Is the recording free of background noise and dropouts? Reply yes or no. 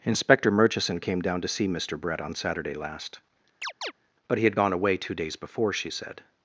no